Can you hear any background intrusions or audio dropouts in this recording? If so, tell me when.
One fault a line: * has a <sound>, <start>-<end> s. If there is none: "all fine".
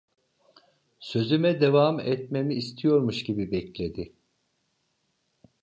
all fine